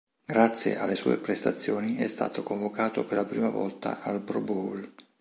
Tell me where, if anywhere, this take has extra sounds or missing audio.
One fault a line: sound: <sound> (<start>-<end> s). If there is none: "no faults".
no faults